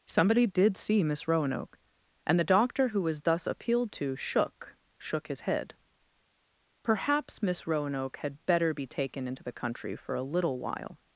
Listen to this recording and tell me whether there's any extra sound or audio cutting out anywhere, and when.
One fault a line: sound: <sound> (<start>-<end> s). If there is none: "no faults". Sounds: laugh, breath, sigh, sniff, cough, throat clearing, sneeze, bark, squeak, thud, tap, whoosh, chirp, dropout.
no faults